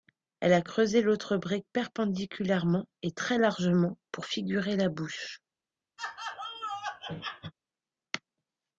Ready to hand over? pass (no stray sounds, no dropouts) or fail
fail